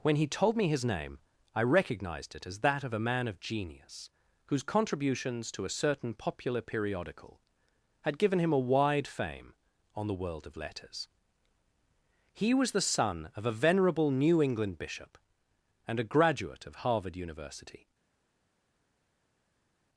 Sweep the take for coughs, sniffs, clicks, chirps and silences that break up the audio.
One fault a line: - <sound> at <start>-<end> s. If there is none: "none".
none